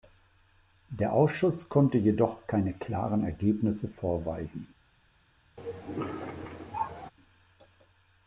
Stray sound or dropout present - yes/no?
yes